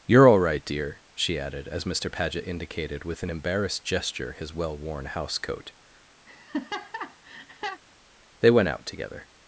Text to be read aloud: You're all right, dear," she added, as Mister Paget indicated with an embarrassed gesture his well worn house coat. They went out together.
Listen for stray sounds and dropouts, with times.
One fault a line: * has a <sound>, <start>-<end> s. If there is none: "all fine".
* has a laugh, 6.3-7.8 s